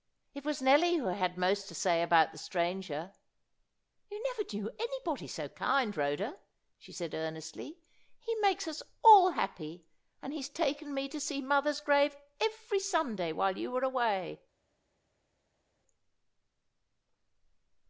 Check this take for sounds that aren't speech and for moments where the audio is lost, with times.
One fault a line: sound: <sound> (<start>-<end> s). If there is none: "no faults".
no faults